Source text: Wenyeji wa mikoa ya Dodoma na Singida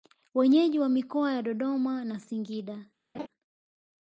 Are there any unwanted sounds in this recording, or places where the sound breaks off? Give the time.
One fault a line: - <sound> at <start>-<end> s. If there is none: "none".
- laugh at 3.1-3.3 s